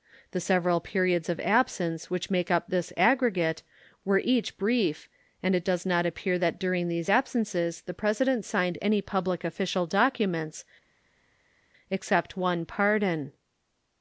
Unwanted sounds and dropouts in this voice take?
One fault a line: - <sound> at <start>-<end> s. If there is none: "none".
none